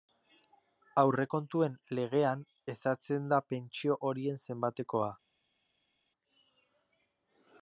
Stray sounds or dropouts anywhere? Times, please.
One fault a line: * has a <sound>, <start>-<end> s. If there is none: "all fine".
all fine